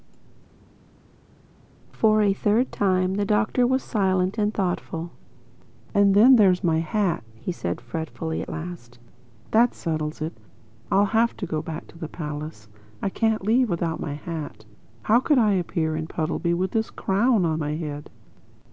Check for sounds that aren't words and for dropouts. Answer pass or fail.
pass